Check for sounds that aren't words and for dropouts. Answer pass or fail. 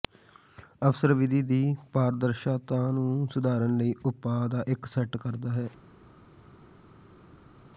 pass